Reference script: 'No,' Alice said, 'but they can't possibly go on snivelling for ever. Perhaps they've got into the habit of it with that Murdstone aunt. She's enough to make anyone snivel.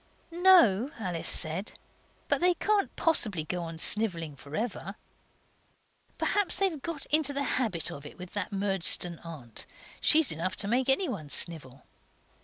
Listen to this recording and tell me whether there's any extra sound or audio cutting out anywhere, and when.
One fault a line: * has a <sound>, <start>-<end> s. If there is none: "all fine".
all fine